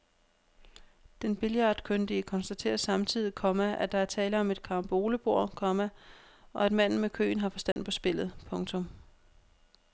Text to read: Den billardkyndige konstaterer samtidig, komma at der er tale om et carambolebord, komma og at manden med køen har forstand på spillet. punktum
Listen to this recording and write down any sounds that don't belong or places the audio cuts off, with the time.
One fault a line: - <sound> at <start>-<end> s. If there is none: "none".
- dropout at 7.7-7.8 s